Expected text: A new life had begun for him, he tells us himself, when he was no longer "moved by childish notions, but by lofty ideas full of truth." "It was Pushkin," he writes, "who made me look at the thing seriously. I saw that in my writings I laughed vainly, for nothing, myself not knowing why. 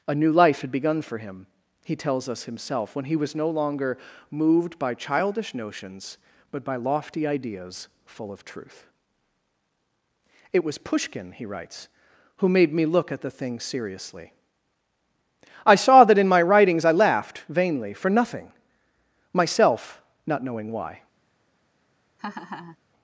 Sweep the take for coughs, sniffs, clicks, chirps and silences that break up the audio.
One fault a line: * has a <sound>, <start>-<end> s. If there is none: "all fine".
* has a laugh, 22.2-22.8 s